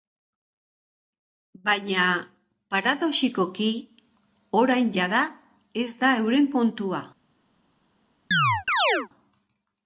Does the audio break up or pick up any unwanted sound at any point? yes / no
yes